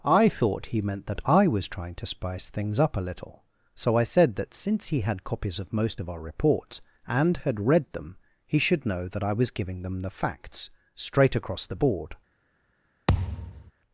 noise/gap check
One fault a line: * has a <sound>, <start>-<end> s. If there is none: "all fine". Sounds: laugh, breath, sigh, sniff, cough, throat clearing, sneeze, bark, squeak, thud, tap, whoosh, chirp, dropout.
* has a thud, 13.1-13.7 s